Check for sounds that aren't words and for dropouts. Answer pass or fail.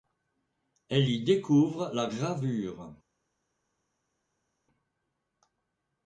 pass